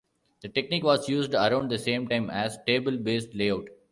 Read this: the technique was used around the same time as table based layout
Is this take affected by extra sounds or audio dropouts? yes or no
no